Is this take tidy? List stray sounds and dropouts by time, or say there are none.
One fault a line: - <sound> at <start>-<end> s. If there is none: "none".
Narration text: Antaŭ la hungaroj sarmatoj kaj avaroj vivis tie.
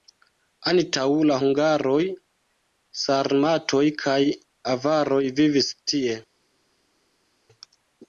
none